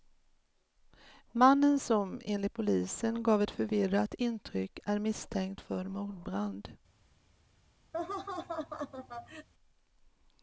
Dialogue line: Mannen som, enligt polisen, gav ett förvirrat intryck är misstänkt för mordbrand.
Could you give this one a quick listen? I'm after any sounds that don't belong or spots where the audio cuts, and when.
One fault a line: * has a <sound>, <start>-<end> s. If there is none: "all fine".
* has a laugh, 7.9-9.5 s